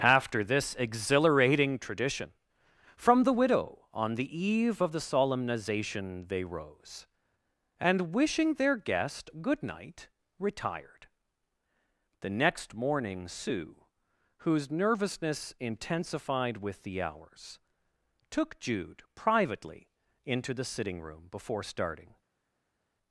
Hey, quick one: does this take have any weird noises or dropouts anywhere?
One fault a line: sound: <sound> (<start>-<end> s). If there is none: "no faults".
no faults